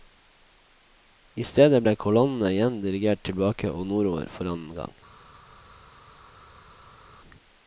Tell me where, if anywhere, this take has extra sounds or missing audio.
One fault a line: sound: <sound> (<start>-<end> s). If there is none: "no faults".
no faults